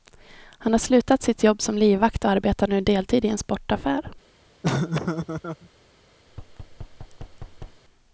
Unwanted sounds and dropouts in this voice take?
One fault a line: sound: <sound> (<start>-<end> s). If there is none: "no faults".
sound: laugh (4.6-5.7 s)
sound: thud (6.3-7.8 s)